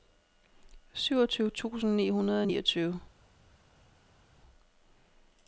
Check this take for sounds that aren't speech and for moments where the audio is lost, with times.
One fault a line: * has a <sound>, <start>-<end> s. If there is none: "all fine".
all fine